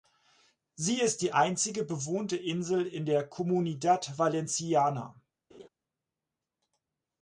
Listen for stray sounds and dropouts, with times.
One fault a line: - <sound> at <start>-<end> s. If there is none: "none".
- laugh at 5.5-5.7 s